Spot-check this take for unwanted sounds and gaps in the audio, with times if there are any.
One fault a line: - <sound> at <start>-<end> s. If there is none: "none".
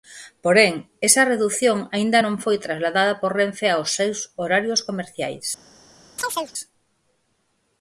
- chirp at 6.2-6.5 s